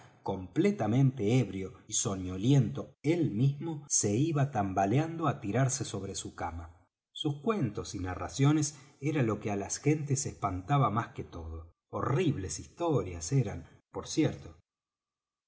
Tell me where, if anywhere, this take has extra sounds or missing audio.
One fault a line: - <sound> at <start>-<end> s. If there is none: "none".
none